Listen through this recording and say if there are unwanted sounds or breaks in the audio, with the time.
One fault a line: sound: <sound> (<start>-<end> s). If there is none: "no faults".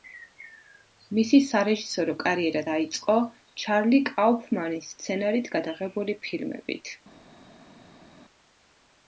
no faults